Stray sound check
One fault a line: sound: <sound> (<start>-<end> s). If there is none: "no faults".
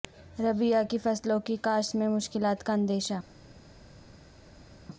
no faults